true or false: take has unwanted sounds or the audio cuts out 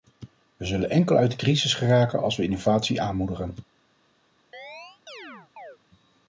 true